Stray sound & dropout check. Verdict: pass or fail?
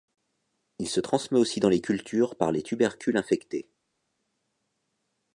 pass